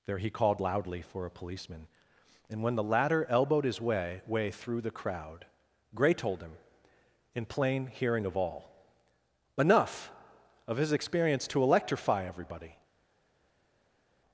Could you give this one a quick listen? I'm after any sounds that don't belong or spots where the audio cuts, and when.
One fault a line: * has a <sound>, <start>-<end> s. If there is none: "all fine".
all fine